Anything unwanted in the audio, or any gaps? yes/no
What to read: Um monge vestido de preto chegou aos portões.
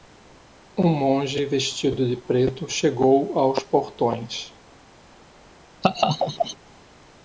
yes